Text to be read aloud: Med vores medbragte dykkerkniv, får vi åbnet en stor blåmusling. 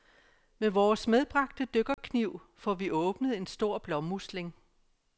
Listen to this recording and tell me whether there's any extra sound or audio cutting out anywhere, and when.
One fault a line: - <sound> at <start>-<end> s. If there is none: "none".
- dropout at 1.9-2.0 s